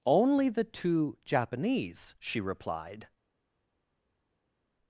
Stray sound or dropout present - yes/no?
no